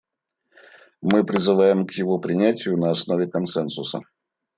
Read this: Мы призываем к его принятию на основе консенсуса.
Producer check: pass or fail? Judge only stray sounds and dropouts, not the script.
pass